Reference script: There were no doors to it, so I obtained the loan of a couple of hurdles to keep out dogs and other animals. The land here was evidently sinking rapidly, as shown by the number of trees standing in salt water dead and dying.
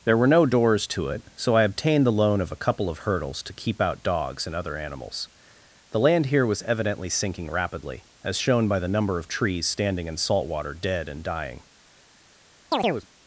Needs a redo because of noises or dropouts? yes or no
yes